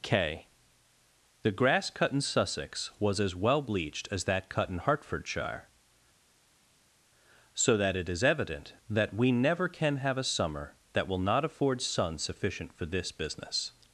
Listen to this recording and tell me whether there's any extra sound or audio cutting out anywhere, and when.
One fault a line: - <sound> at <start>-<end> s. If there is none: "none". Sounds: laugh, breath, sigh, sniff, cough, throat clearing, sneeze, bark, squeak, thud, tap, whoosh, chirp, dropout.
none